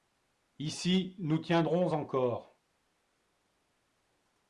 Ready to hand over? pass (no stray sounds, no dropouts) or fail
pass